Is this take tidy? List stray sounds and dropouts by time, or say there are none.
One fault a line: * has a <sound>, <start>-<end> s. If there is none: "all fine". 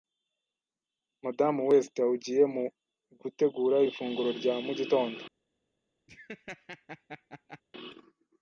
* has a laugh, 6.1-7.6 s